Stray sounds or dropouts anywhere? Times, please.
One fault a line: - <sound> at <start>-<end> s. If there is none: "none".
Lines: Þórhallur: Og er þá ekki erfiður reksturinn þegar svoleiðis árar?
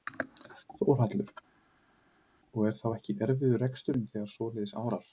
none